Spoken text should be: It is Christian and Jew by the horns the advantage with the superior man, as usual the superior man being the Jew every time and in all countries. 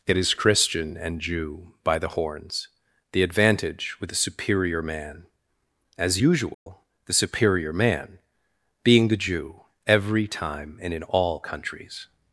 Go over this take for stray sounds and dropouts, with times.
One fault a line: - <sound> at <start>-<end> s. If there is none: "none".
- dropout at 6.5-6.7 s